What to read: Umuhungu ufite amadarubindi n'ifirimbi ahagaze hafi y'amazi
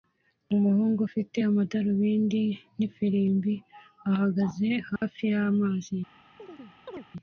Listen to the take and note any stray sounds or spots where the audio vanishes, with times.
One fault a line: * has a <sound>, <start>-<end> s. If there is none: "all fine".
* has a dropout, 5.0-5.0 s
* has a chirp, 6.4-7.1 s